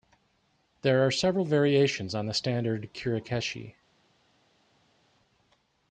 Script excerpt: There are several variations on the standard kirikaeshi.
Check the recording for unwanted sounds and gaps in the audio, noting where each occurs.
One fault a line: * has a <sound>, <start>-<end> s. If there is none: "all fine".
all fine